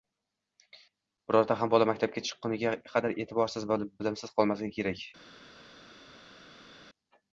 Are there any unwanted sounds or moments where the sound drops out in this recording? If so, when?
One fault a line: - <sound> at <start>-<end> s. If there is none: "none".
none